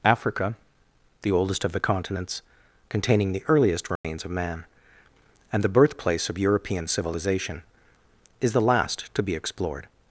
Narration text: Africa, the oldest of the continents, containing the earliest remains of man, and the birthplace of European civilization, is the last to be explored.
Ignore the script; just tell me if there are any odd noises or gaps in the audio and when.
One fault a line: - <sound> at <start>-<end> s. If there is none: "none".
- dropout at 4.0-4.0 s